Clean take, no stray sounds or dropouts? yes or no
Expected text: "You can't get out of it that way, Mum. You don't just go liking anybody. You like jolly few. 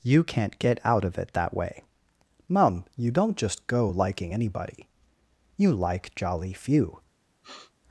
no